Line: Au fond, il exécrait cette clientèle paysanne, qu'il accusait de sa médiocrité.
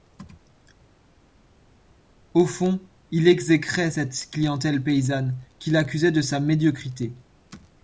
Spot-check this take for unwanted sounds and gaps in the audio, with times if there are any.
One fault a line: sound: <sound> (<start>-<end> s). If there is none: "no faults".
no faults